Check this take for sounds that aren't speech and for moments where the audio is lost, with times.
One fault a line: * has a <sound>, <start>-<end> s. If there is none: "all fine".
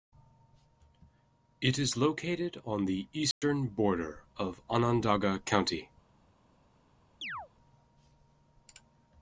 * has a dropout, 3.3-3.4 s
* has a chirp, 7.2-7.5 s